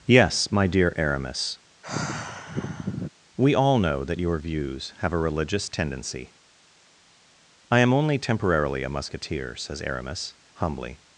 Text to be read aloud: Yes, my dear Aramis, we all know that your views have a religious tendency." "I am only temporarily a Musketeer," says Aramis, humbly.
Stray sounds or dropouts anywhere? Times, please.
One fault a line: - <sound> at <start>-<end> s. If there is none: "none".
- sigh at 1.8-3.1 s